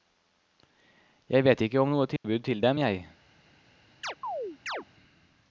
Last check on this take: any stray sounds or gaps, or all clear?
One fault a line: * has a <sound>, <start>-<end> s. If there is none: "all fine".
* has a dropout, 2.2-2.2 s
* has a chirp, 4.0-4.8 s